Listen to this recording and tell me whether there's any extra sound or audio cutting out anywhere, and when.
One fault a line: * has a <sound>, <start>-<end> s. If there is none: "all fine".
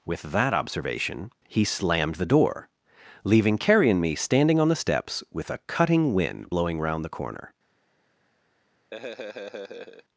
* has a laugh, 8.9-10.0 s